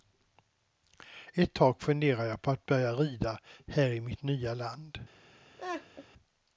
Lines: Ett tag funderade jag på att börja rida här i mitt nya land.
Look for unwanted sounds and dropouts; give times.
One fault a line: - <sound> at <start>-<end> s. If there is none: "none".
- laugh at 5.6-6.0 s